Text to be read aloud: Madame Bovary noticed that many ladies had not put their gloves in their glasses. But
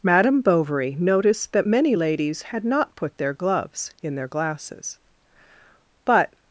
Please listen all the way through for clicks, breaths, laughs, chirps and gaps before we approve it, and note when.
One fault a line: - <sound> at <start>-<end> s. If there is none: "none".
none